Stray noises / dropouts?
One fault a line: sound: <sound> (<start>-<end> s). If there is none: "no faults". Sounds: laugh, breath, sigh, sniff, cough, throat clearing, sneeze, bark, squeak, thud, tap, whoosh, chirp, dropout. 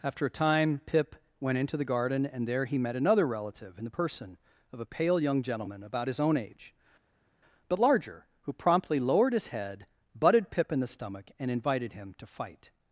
no faults